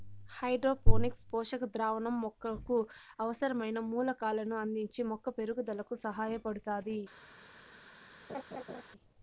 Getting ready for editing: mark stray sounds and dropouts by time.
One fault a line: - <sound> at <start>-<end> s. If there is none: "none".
- laugh at 8.3-8.8 s